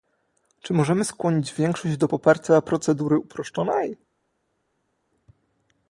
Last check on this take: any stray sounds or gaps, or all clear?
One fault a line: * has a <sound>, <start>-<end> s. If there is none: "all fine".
all fine